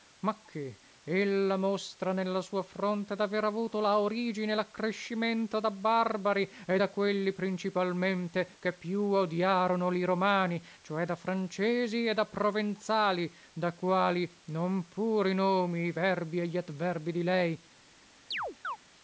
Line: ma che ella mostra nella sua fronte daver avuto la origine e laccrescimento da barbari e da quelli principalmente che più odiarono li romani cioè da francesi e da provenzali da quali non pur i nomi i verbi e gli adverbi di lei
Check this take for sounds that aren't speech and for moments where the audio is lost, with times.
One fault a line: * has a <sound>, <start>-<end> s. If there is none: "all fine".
* has a chirp, 18.3-18.8 s